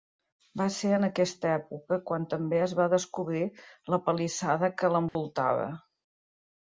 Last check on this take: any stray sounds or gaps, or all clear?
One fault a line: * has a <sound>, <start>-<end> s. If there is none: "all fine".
* has a dropout, 5.1-5.2 s